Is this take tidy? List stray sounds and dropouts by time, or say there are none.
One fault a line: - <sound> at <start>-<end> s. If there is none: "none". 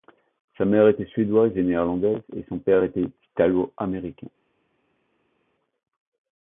none